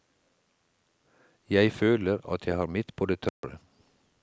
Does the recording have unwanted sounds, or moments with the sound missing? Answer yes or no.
yes